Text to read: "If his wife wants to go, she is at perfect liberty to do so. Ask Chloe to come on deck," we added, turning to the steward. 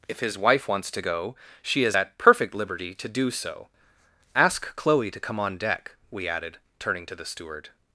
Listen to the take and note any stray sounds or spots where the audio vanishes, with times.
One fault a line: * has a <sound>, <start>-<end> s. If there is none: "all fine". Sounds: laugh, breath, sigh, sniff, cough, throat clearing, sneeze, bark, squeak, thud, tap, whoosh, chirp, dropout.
all fine